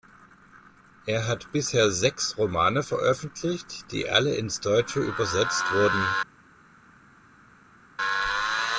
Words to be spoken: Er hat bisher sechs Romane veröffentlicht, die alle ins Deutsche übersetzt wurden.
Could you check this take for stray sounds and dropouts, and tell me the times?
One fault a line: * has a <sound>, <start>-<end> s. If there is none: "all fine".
all fine